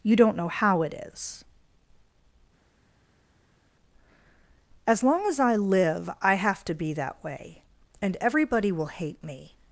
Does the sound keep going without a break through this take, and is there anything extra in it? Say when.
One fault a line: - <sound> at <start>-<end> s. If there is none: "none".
none